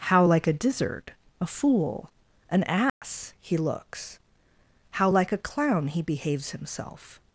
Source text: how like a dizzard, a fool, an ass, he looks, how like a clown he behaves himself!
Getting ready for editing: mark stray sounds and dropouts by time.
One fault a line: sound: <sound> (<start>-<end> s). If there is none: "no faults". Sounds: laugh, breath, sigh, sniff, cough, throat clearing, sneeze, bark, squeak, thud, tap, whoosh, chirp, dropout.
sound: dropout (2.9-3.0 s)